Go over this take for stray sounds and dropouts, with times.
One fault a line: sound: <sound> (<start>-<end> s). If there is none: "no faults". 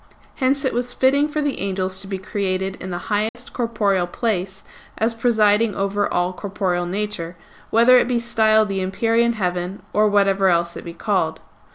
sound: dropout (3.3-3.4 s)